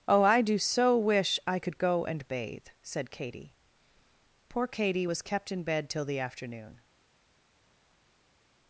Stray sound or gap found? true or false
false